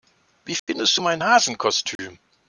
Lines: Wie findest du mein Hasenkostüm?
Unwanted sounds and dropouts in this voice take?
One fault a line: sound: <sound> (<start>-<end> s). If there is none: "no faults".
sound: dropout (0.6-0.7 s)
sound: dropout (2.0-2.0 s)